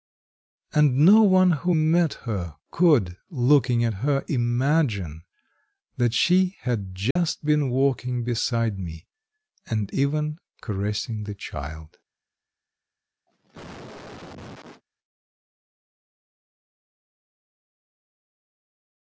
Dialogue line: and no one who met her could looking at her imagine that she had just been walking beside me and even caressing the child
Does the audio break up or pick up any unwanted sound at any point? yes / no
yes